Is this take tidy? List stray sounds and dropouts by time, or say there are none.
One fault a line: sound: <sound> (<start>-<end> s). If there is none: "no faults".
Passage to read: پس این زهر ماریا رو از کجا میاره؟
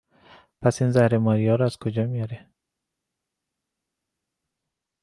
no faults